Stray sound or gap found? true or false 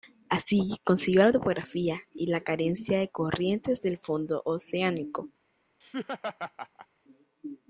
true